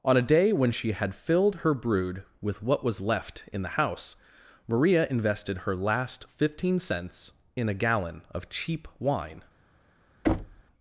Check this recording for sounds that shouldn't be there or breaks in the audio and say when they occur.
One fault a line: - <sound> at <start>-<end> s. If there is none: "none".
- thud at 10.2-10.6 s